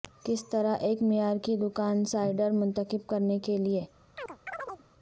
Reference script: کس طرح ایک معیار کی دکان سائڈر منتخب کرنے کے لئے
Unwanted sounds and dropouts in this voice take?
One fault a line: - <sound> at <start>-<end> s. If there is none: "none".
- chirp at 4.2-4.8 s